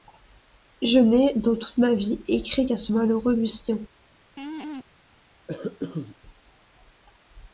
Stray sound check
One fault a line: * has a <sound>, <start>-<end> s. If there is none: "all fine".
* has a laugh, 4.4-4.9 s
* has a cough, 5.5-6.2 s